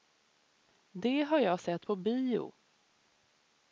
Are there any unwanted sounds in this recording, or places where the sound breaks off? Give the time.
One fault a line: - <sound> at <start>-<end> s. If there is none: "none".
none